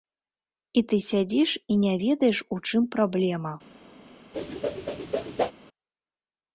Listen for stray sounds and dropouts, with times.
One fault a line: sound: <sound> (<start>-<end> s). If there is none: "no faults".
sound: whoosh (4.3-5.5 s)